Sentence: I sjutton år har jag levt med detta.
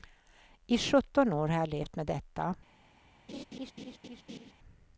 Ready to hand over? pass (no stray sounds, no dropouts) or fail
fail